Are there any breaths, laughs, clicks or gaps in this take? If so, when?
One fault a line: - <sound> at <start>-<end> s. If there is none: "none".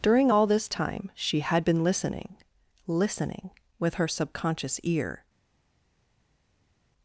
none